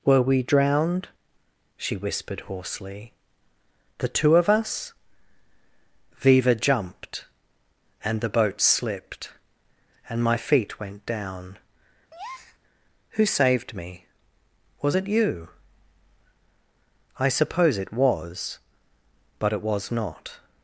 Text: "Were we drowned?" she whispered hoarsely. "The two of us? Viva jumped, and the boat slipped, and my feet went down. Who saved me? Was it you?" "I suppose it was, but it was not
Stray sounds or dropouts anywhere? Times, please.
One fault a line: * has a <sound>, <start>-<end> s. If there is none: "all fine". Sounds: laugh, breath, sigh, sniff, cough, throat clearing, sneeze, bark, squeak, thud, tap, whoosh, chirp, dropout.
* has a breath, 12.1-12.6 s